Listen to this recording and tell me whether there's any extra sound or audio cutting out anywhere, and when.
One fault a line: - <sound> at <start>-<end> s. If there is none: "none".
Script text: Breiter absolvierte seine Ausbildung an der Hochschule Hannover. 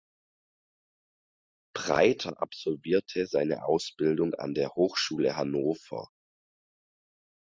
none